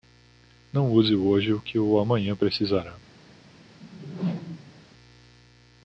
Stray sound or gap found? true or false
true